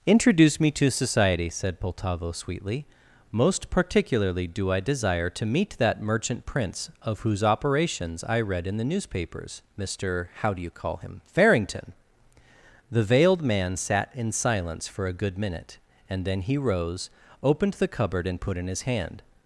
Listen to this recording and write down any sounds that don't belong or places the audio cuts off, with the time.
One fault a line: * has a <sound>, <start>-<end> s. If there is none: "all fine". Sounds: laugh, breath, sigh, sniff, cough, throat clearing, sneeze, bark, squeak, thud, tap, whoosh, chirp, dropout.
all fine